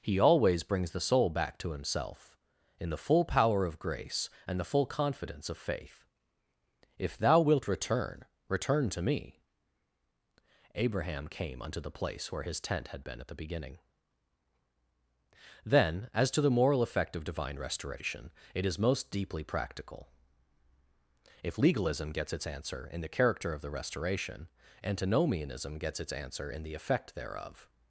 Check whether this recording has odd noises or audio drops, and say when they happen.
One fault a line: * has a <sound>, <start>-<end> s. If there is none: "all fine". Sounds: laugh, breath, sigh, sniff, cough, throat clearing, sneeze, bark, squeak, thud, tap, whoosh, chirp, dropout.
all fine